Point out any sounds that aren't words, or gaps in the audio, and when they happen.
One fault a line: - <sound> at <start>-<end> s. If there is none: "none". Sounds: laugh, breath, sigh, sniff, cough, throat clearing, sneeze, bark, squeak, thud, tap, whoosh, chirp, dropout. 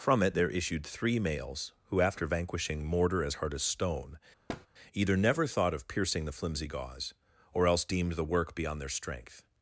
- thud at 4.5-4.7 s